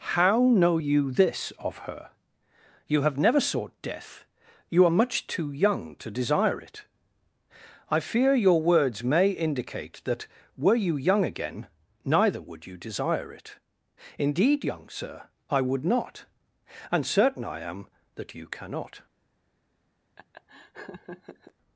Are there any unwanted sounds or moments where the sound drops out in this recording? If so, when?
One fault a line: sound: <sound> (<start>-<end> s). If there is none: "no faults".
sound: laugh (20.2-21.5 s)